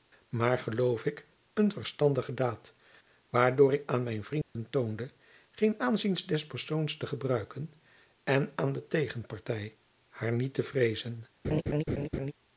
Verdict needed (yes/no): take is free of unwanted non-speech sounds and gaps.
no